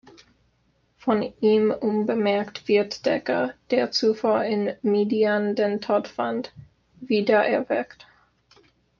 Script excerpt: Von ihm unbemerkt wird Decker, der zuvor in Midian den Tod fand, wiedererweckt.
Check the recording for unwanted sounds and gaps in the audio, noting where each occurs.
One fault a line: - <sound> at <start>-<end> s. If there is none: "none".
none